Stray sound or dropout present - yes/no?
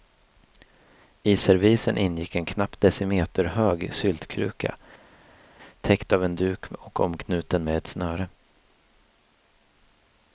no